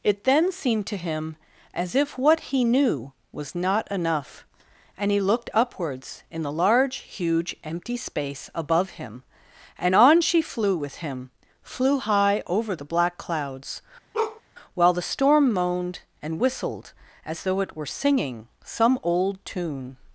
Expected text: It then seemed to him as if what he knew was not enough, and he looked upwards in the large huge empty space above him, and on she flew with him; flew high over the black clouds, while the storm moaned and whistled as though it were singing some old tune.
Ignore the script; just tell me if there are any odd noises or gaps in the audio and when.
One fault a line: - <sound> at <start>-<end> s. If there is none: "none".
- bark at 14.1-14.4 s